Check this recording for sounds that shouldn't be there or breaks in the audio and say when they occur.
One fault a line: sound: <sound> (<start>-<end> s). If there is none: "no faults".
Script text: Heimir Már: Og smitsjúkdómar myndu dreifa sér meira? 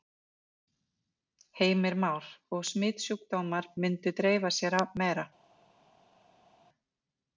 no faults